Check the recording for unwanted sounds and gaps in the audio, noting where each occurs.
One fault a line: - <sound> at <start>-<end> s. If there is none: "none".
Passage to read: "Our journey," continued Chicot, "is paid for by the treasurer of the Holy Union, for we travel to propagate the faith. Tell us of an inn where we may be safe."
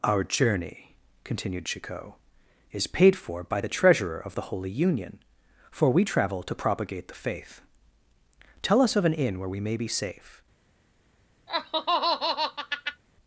- laugh at 11.5-13.0 s